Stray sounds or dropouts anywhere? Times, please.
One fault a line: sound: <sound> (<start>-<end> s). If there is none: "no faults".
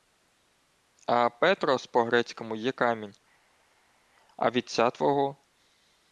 no faults